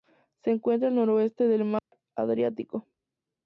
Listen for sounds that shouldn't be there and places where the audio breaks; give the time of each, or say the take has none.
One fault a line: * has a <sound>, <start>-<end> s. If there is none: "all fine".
* has a dropout, 1.8-1.9 s